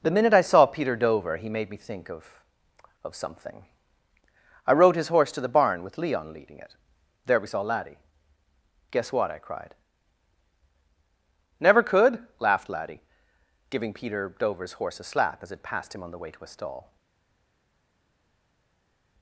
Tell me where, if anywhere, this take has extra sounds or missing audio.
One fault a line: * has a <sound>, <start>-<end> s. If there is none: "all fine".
all fine